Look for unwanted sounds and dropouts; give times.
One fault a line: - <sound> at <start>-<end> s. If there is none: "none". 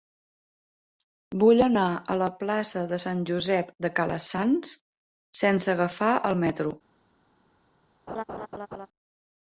- laugh at 8.1-8.9 s